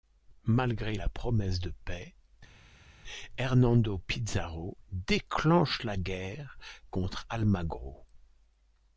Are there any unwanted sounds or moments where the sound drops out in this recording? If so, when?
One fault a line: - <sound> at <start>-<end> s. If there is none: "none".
none